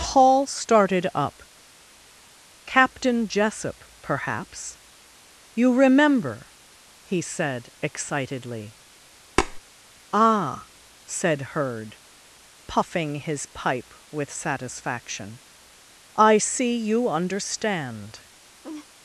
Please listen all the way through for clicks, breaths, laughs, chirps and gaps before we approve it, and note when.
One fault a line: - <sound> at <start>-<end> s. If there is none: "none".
- tap at 9.4-9.6 s
- laugh at 18.6-18.9 s